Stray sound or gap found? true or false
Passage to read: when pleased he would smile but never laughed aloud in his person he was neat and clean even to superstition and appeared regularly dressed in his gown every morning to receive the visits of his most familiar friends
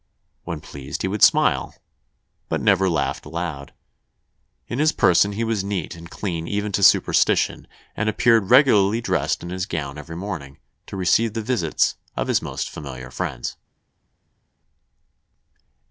false